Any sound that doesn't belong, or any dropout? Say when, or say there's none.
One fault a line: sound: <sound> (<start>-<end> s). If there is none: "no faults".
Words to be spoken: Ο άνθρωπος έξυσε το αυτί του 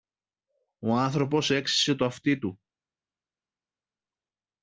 no faults